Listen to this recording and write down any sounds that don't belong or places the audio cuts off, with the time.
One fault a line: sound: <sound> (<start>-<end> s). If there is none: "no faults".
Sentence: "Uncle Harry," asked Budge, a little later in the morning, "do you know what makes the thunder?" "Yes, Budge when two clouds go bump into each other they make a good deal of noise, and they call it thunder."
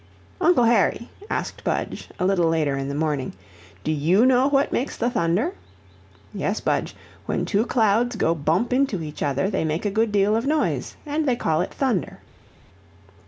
no faults